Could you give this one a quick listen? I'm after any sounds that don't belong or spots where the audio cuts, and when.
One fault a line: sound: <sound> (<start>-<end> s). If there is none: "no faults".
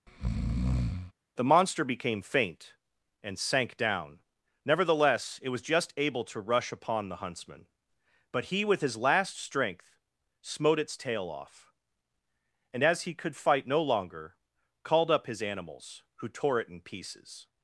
sound: breath (0.1-1.1 s)